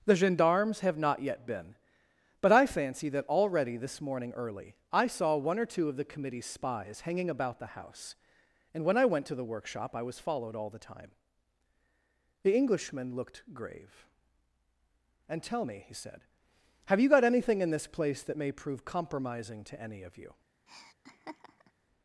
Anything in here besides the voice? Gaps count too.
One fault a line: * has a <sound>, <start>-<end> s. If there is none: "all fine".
* has a laugh, 20.7-21.7 s